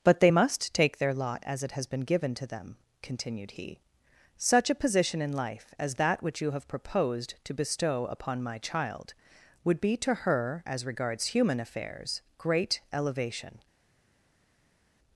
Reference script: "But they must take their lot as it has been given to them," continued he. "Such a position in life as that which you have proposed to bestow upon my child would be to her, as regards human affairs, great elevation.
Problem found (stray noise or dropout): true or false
false